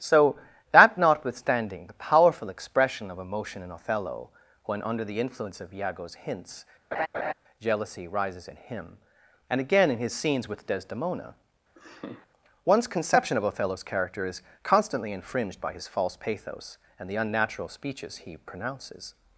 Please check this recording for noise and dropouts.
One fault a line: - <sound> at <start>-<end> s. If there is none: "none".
- laugh at 6.9-7.3 s
- laugh at 11.8-12.3 s